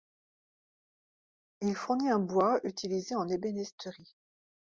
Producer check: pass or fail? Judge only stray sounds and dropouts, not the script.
pass